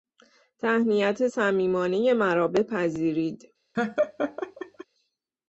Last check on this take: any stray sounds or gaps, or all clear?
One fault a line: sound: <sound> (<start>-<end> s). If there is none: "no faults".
sound: laugh (3.7-4.8 s)